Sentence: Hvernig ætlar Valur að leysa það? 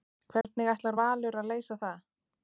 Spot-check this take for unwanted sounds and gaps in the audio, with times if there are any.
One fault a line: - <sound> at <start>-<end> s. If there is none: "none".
- dropout at 0.4-0.4 s